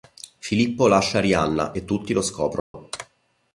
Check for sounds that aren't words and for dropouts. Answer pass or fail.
fail